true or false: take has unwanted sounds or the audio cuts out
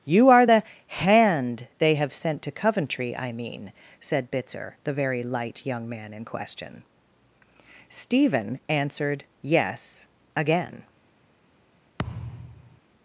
true